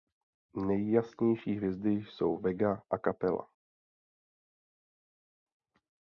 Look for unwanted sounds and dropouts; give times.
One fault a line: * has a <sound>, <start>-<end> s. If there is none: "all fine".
all fine